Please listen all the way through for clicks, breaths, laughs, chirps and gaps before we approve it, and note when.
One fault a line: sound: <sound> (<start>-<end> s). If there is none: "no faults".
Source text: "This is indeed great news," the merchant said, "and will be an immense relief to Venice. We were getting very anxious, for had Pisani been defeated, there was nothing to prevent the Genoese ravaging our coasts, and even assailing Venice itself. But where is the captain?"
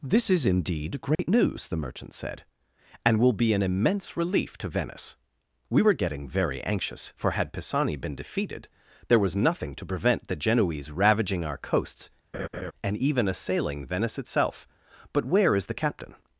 sound: dropout (1.2-1.2 s)
sound: laugh (12.3-12.7 s)